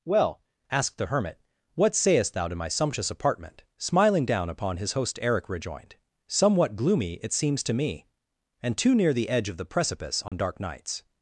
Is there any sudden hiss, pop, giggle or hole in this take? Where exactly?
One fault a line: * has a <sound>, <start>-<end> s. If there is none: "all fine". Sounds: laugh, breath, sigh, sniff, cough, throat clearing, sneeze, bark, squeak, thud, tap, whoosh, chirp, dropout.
* has a dropout, 10.3-10.3 s